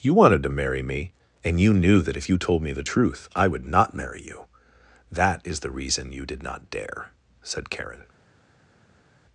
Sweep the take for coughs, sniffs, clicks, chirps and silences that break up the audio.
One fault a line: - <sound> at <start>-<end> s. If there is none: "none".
none